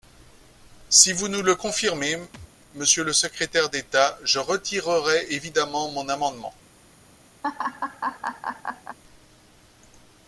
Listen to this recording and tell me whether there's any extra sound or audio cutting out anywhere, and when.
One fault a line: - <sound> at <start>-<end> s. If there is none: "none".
- thud at 2.3-2.5 s
- laugh at 7.4-9.0 s